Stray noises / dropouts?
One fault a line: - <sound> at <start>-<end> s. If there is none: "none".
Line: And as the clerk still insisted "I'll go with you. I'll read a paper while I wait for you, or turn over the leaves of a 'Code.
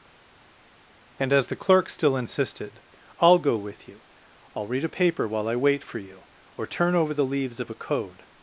none